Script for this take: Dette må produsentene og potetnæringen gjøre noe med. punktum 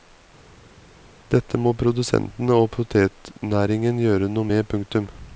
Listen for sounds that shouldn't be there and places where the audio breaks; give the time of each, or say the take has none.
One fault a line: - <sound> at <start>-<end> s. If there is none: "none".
none